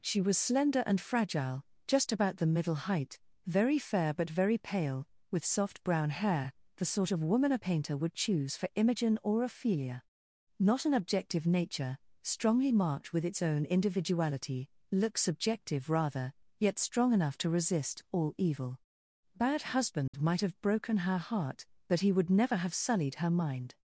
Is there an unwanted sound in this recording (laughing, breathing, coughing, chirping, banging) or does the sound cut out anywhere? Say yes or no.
yes